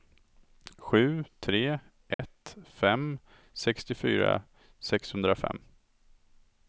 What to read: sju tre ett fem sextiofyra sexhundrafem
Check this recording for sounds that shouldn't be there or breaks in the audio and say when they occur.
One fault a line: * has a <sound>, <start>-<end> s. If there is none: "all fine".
* has a dropout, 2.1-2.2 s